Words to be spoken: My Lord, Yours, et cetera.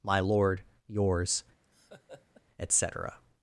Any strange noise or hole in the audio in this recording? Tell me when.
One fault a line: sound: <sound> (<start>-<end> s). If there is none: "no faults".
sound: laugh (1.6-2.4 s)